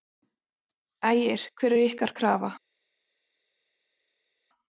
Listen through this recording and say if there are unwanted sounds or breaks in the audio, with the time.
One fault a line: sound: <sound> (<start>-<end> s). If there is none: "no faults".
no faults